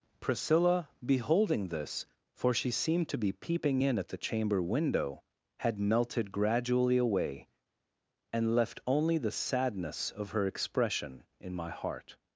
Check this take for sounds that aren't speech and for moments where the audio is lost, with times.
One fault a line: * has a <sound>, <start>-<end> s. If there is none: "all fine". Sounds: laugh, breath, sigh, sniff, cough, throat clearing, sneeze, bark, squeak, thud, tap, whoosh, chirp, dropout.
all fine